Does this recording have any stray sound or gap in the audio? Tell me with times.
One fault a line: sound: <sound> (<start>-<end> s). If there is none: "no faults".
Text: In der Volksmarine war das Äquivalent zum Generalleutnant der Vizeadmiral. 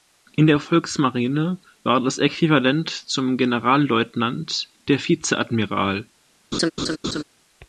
sound: laugh (6.5-7.2 s)